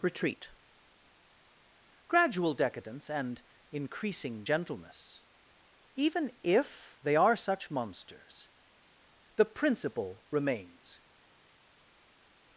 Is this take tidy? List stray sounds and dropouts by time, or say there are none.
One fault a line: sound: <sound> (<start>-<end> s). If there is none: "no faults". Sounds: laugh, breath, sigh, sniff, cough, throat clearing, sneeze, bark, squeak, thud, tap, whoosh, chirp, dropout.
no faults